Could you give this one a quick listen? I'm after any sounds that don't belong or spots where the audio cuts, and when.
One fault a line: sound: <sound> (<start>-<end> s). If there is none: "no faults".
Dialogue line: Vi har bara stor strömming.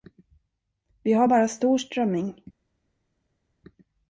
no faults